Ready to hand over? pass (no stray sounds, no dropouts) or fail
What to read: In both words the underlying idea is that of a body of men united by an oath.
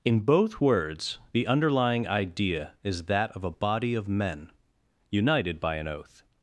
pass